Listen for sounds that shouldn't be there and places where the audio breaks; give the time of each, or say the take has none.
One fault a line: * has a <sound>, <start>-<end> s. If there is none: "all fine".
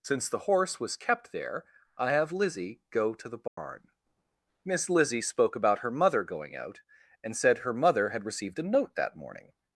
* has a dropout, 3.5-3.6 s